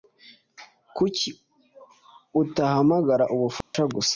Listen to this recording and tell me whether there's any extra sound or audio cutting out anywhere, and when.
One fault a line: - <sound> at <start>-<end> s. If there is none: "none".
- dropout at 3.6-3.7 s